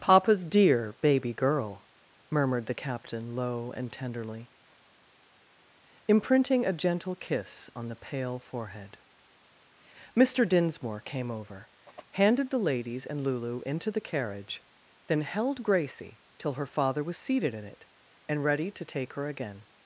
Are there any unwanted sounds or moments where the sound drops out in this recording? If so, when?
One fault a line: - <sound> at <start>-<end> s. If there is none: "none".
none